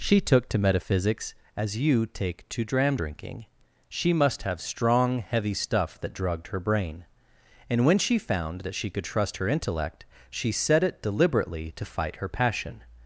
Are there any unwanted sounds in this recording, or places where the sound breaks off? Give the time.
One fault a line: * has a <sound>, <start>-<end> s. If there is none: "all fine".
all fine